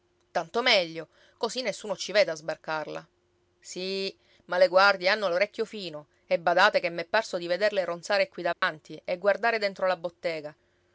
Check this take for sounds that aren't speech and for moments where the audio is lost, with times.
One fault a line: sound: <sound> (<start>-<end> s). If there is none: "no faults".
sound: dropout (8.5-8.6 s)